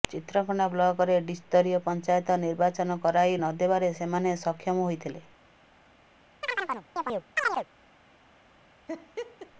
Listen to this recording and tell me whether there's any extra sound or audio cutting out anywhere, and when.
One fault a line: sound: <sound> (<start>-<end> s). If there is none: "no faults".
sound: chirp (6.4-7.7 s)
sound: laugh (8.9-9.5 s)